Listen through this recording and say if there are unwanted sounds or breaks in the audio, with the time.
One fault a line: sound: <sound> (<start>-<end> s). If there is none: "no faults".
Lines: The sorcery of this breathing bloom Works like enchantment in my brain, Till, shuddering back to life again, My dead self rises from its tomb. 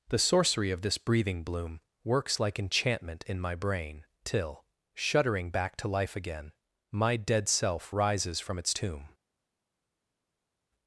no faults